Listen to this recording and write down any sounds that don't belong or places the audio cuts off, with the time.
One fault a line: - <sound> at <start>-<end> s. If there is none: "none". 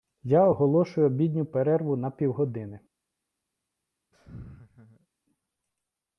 - laugh at 4.1-5.1 s